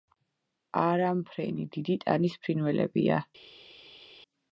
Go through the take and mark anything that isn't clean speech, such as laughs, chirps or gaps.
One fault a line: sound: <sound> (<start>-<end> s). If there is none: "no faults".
no faults